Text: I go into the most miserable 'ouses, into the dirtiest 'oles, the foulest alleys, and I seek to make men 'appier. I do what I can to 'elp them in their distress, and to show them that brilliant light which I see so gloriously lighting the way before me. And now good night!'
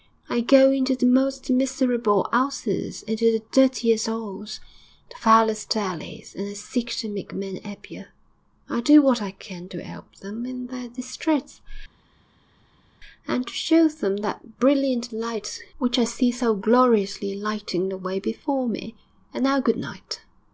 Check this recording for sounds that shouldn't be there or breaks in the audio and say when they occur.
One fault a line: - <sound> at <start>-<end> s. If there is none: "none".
none